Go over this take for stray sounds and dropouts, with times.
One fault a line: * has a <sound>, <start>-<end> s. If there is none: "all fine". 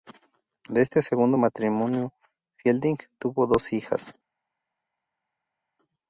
all fine